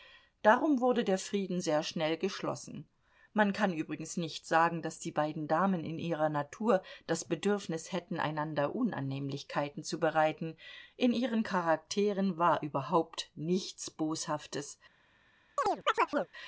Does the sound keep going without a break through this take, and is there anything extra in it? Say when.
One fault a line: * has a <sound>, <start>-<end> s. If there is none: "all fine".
* has a chirp, 15.6-16.3 s